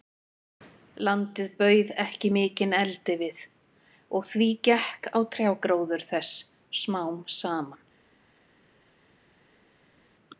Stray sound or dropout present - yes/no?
no